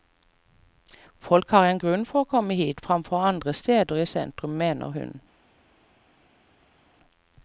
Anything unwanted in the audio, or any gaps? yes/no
no